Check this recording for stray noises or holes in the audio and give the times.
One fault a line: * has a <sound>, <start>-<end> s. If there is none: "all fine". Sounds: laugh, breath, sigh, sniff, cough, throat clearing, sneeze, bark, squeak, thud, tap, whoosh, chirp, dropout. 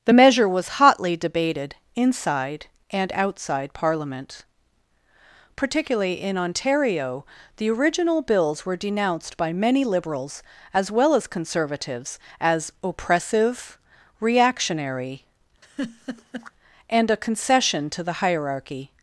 * has a laugh, 15.6-16.5 s